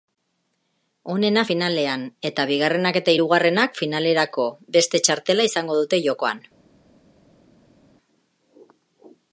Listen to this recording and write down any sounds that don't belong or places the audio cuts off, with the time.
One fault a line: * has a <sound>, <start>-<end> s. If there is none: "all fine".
all fine